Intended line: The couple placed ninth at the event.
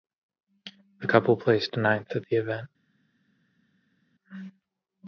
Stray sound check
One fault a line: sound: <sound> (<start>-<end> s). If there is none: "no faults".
no faults